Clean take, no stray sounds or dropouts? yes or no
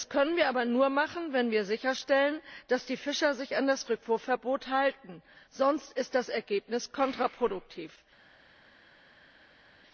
yes